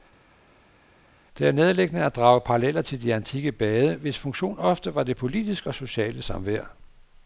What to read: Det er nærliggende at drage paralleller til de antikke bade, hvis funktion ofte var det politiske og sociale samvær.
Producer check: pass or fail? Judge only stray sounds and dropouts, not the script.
pass